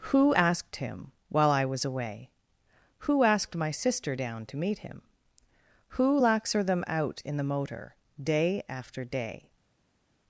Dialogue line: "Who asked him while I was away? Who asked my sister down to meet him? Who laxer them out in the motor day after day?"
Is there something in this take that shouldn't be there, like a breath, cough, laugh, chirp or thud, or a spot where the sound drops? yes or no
no